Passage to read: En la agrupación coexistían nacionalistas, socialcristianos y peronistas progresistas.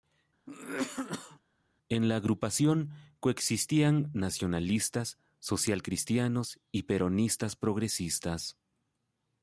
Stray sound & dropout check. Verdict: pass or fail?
fail